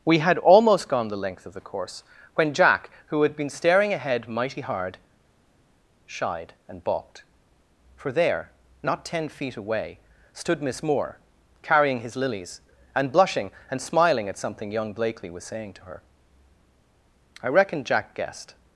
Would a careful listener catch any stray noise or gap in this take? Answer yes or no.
no